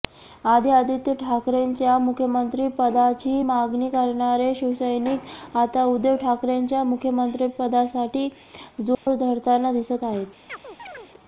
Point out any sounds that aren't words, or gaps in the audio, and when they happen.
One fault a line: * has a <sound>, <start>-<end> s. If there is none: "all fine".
* has a dropout, 8.9-9.1 s
* has a chirp, 10.5-11.1 s